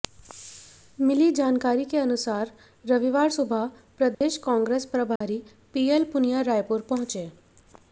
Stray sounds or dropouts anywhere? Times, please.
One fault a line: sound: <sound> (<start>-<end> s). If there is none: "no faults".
sound: dropout (4.1-4.2 s)
sound: dropout (5.2-5.2 s)